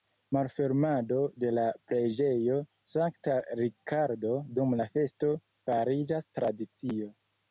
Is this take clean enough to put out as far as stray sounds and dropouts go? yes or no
yes